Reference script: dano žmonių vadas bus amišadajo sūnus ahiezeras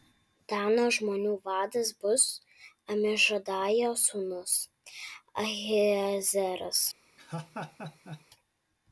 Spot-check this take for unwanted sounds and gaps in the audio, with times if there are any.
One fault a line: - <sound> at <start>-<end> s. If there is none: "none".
- laugh at 7.2-8.2 s